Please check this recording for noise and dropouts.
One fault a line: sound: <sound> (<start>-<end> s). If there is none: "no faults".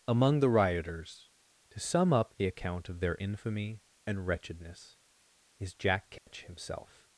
sound: dropout (6.2-6.3 s)